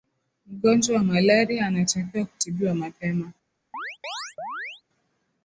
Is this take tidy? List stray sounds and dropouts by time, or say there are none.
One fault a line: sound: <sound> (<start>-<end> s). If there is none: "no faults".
sound: chirp (3.7-4.8 s)